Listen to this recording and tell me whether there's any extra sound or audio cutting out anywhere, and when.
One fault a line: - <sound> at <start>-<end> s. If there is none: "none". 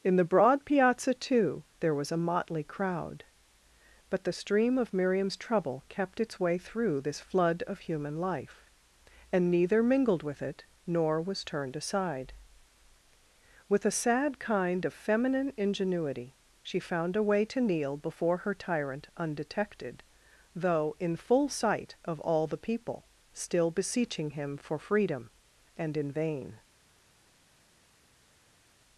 none